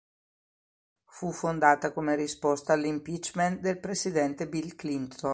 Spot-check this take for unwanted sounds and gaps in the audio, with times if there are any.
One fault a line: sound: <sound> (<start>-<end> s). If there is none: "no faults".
no faults